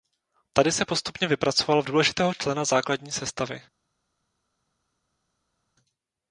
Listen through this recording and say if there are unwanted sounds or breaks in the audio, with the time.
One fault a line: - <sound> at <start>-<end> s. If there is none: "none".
none